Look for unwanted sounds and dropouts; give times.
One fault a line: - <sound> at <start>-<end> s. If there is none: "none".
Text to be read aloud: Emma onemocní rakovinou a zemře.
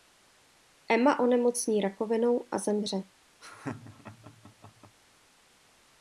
- laugh at 3.4-5.0 s